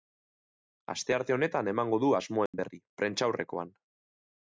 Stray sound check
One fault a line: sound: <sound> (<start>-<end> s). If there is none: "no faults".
sound: dropout (2.5-2.5 s)